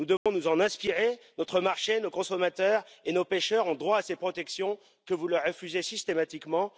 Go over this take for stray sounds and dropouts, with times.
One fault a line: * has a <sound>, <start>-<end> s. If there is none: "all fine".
* has a dropout, 0.2-0.3 s